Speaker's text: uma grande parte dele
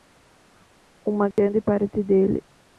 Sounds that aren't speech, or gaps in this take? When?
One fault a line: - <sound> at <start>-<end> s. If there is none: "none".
- dropout at 1.3-1.4 s